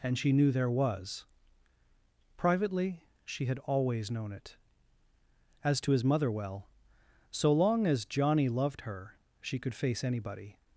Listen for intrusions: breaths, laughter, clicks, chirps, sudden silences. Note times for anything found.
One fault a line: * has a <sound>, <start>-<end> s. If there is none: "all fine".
all fine